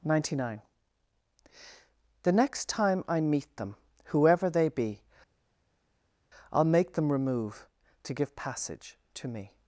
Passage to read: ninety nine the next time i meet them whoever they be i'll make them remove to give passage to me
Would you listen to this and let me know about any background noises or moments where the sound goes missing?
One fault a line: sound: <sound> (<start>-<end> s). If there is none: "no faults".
no faults